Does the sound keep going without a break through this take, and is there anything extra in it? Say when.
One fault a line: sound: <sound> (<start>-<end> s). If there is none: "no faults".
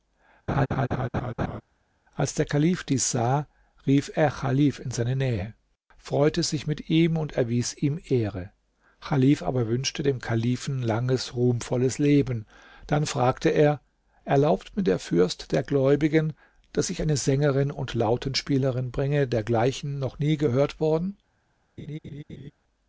sound: laugh (0.5-1.6 s)
sound: laugh (21.8-22.5 s)